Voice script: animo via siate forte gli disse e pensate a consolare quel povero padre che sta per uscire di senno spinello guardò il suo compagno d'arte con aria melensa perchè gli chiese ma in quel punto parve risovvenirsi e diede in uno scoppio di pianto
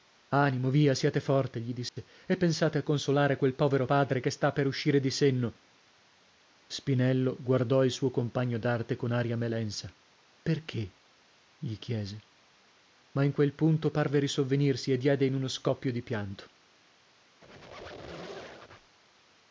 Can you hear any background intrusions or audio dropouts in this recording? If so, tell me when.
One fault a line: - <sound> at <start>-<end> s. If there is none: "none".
- dropout at 1.9-2.0 s
- squeak at 17.4-19.0 s